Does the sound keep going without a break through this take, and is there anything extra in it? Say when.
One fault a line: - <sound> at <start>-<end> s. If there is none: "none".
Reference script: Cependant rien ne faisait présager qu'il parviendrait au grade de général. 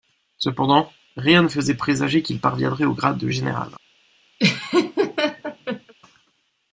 - laugh at 4.4-5.9 s